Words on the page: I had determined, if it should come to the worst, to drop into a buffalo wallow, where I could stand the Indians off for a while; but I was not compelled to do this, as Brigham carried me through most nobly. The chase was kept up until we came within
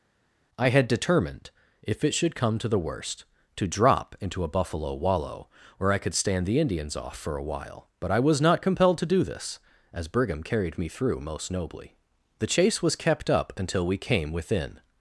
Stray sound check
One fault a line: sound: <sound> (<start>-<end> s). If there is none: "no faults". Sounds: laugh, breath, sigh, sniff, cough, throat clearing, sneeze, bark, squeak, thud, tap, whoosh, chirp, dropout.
no faults